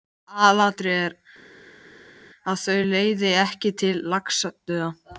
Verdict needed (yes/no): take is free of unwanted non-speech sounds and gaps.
yes